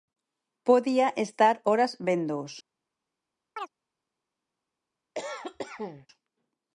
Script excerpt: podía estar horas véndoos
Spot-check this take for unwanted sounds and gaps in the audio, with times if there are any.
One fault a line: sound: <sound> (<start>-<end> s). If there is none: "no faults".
sound: chirp (3.6-3.7 s)
sound: cough (5.1-6.1 s)